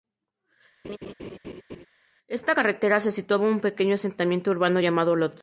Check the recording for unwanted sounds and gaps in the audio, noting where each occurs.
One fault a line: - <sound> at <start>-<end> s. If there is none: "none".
- laugh at 0.8-1.9 s